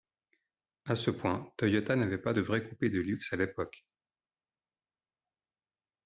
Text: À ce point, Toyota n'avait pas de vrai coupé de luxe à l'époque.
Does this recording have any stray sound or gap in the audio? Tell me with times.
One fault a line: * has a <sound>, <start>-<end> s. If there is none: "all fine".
all fine